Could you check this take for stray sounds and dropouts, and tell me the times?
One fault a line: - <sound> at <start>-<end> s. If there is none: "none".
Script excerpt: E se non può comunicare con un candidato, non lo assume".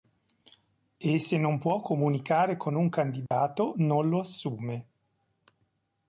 - dropout at 3.3-3.3 s